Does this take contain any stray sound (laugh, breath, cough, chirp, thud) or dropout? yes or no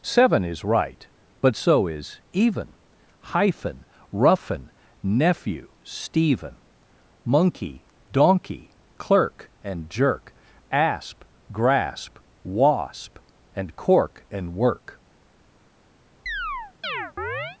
yes